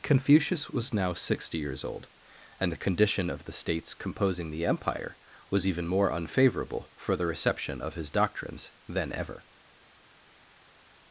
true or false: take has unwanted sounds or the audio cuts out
false